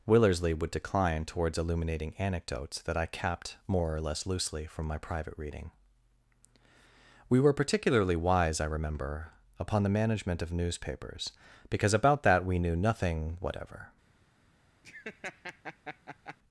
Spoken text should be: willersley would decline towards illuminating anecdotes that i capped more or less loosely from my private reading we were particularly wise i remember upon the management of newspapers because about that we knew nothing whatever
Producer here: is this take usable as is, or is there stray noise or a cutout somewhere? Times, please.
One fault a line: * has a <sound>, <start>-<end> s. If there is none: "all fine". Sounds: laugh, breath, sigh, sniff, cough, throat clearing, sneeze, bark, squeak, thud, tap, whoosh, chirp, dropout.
* has a laugh, 14.8-16.4 s